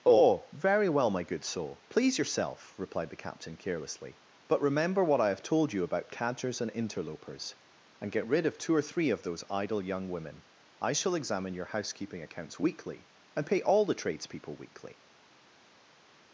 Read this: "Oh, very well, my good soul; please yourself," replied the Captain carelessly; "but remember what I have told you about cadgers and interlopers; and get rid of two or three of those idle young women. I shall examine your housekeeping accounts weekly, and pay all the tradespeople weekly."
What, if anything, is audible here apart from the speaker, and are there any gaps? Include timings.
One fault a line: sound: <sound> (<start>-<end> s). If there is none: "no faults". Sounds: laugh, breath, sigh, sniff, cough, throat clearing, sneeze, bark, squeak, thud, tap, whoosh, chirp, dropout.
no faults